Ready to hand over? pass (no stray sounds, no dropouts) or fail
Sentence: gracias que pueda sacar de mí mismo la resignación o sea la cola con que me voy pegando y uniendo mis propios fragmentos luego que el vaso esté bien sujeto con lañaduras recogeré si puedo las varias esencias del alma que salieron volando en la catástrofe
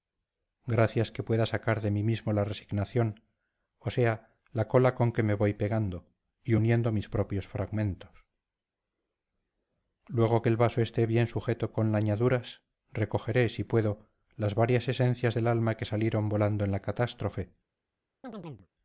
fail